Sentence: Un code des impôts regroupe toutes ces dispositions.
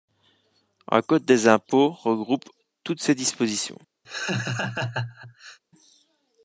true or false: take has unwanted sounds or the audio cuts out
true